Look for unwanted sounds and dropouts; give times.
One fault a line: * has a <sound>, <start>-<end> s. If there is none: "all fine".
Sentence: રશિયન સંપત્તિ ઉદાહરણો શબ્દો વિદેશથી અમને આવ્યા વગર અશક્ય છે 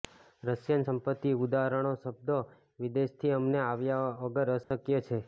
* has a dropout, 4.6-4.7 s